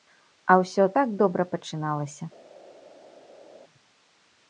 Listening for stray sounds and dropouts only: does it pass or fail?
pass